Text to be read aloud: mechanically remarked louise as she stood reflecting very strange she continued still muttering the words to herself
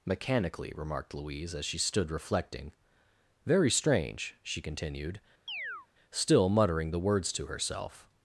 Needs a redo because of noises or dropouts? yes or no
yes